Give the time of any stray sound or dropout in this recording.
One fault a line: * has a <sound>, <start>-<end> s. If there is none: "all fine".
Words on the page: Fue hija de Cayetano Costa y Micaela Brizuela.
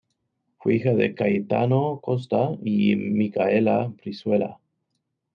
all fine